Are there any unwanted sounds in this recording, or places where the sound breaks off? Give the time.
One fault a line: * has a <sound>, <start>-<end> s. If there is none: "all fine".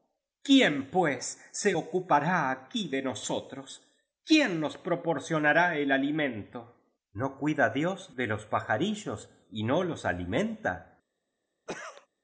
* has a cough, 11.7-12.1 s